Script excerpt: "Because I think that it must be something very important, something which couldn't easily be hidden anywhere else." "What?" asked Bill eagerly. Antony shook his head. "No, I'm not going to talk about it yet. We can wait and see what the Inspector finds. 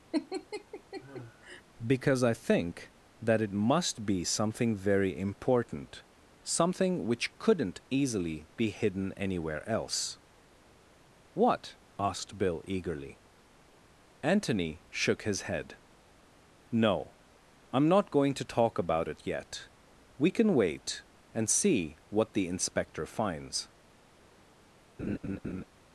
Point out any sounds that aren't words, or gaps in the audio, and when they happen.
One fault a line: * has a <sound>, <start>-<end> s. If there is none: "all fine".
* has a laugh, 0.1-1.6 s
* has a laugh, 25.0-25.6 s